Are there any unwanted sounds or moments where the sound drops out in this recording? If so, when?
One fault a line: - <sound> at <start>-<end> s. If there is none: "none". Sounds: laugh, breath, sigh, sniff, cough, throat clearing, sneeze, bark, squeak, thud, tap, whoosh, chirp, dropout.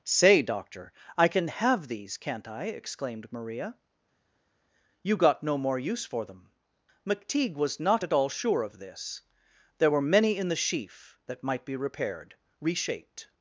none